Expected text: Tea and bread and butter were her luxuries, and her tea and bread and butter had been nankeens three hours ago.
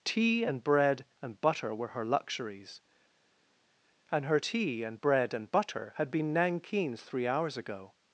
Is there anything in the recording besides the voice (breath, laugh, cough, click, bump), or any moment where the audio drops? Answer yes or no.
no